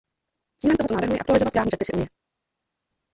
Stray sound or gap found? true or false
false